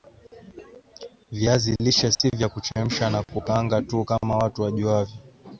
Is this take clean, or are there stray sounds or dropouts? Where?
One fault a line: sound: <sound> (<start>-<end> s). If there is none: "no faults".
sound: dropout (2.1-2.2 s)